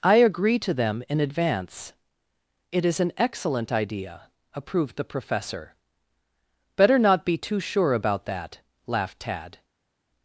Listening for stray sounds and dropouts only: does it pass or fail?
pass